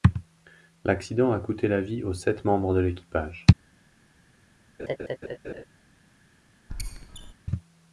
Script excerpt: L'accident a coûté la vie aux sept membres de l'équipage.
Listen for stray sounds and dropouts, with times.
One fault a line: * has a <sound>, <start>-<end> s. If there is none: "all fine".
* has a laugh, 4.8-5.6 s
* has a squeak, 6.7-7.3 s